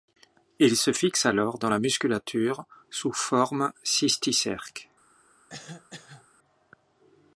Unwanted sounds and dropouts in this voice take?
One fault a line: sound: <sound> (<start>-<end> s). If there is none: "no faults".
sound: cough (5.5-6.3 s)